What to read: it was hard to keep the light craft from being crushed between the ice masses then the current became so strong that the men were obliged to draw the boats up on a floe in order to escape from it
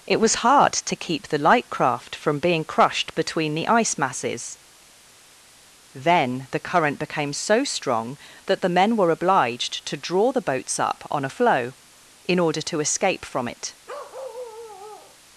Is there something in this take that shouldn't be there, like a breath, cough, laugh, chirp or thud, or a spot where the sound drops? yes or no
yes